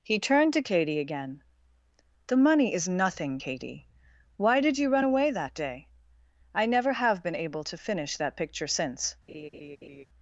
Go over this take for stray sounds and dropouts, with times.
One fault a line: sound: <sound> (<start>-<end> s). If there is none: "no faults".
sound: laugh (9.3-10.1 s)